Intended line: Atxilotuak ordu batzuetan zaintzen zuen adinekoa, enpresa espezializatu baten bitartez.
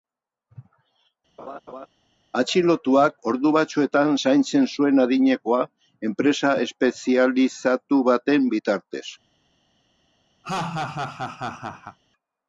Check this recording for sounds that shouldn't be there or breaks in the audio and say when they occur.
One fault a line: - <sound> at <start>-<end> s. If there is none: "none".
- laugh at 1.4-1.9 s
- laugh at 10.4-12.0 s